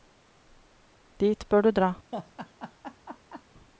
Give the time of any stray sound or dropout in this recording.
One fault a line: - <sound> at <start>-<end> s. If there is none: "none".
- laugh at 2.1-3.4 s